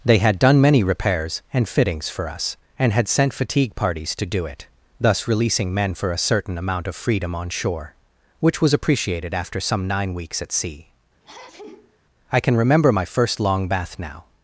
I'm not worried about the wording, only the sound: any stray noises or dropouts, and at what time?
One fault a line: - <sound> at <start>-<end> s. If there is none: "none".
- sneeze at 11.2-12.0 s